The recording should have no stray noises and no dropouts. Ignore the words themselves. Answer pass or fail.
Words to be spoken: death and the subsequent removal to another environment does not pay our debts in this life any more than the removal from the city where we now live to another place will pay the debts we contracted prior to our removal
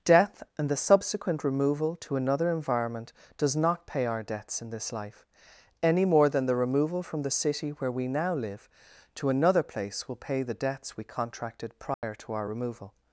fail